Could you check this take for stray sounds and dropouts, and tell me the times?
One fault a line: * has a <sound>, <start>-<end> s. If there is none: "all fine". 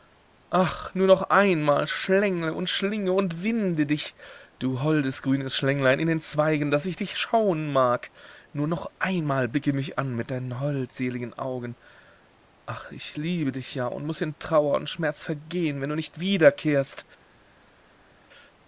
all fine